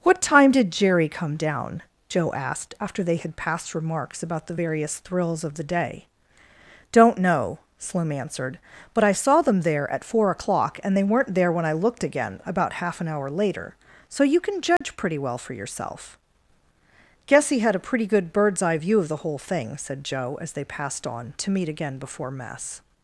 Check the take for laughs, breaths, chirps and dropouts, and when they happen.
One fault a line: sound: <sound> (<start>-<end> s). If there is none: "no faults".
sound: dropout (14.8-14.8 s)